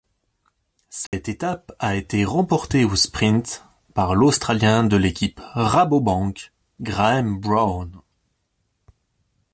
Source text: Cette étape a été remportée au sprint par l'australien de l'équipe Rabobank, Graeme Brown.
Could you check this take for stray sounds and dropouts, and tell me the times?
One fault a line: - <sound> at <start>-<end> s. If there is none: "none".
- dropout at 1.1-1.1 s